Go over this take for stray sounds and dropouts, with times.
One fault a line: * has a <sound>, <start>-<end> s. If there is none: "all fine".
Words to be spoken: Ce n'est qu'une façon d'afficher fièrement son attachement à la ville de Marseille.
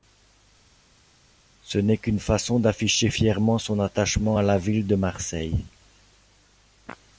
all fine